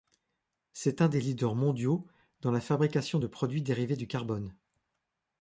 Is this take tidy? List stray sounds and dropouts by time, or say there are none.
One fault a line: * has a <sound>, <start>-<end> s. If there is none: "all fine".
all fine